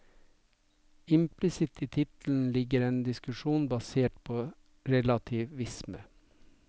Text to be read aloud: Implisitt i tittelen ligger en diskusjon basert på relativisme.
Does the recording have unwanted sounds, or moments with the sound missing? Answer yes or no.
no